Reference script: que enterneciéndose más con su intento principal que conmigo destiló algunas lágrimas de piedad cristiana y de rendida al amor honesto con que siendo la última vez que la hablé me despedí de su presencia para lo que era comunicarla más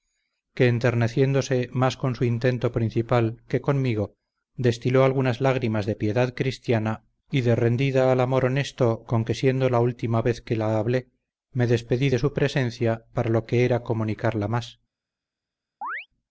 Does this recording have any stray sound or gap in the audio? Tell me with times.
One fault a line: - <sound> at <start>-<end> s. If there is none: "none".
- chirp at 15.8-16.1 s